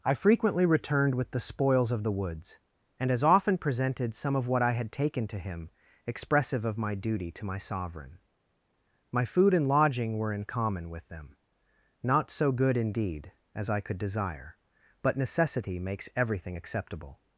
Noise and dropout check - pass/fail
pass